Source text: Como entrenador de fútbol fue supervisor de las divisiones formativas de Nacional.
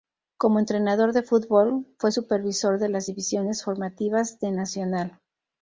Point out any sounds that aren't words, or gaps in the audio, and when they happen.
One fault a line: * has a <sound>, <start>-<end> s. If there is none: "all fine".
all fine